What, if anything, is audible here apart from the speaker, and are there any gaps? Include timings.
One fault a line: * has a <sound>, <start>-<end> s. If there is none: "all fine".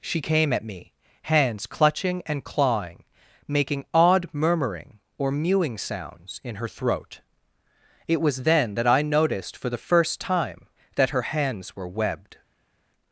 all fine